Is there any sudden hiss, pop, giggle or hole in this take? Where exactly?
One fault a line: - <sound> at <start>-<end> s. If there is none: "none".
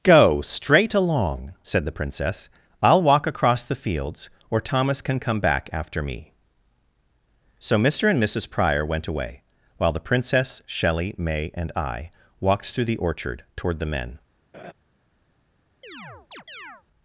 - laugh at 14.5-14.7 s
- chirp at 15.8-16.8 s